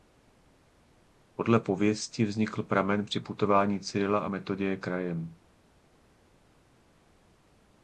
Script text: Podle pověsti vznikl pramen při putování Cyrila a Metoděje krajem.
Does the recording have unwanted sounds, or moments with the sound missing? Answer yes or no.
no